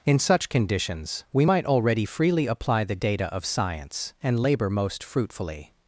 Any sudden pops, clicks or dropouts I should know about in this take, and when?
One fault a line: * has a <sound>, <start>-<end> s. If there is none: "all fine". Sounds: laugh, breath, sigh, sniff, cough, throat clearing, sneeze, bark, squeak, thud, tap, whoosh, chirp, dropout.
all fine